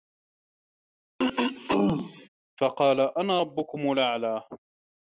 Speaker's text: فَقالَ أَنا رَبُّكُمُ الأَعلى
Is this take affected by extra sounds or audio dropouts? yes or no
yes